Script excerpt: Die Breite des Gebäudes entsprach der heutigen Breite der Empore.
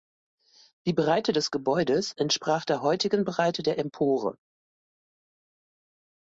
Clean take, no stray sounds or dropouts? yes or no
yes